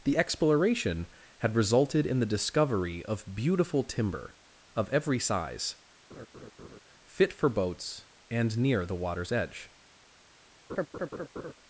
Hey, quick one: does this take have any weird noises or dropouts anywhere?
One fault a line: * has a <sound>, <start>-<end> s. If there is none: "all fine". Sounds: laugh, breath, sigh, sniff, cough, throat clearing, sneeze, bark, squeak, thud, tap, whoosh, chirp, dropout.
* has a laugh, 6.1-6.8 s
* has a laugh, 10.7-11.5 s